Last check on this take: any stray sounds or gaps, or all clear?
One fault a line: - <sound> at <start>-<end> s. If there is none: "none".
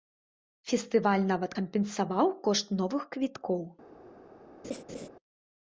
- laugh at 4.6-5.1 s